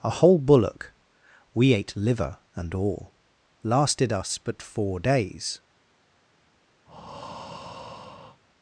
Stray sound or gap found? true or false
true